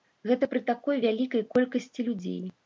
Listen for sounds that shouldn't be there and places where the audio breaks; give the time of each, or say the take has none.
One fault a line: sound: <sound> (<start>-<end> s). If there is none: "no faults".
no faults